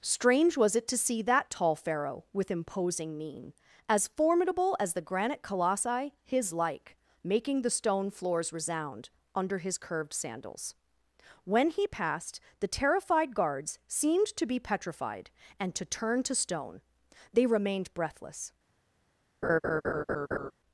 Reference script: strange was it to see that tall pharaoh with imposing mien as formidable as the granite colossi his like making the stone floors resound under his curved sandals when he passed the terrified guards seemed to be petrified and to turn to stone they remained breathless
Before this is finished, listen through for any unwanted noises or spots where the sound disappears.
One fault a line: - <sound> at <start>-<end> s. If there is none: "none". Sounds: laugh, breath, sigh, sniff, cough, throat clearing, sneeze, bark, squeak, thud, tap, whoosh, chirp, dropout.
- laugh at 19.4-20.5 s